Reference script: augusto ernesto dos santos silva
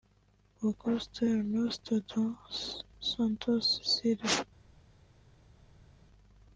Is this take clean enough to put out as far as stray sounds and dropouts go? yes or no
yes